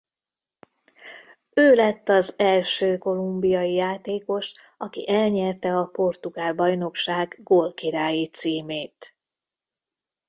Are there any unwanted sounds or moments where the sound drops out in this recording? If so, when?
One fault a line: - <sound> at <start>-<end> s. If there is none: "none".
none